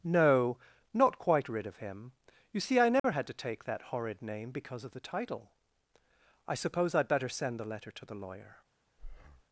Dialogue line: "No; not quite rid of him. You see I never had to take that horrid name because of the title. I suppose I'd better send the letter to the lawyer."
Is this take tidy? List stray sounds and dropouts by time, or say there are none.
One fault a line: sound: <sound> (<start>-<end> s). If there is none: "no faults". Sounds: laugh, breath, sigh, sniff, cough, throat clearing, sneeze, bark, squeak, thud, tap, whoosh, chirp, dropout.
sound: dropout (3.0-3.0 s)
sound: breath (9.0-9.4 s)